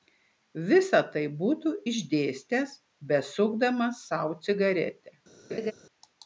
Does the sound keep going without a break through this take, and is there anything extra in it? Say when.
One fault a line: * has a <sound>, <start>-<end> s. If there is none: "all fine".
* has a laugh, 5.5-5.7 s